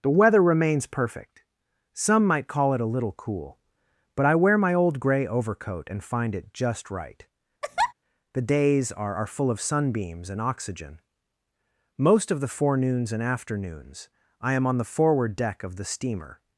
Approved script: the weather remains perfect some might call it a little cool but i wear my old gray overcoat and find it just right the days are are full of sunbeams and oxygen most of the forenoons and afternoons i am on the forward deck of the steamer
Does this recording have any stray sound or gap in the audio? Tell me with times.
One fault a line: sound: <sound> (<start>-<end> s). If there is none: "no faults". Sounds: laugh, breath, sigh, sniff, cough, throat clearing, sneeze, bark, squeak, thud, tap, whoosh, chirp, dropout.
sound: laugh (7.6-7.9 s)